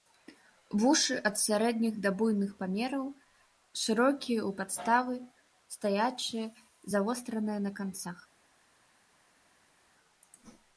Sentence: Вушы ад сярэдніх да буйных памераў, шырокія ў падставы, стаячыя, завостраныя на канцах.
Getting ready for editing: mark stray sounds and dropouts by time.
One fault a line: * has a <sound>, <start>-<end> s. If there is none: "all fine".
all fine